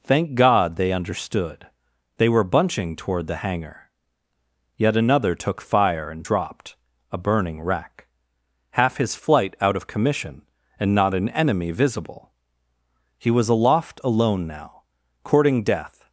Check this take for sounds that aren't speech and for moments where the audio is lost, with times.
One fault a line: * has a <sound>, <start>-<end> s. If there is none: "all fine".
all fine